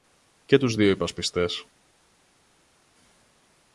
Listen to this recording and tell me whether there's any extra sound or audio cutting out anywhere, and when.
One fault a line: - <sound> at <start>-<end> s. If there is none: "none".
none